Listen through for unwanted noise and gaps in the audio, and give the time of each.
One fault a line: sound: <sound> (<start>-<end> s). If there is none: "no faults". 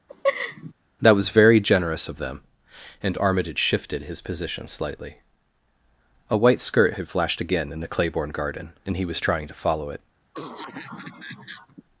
sound: laugh (0.1-0.7 s)
sound: cough (10.3-11.8 s)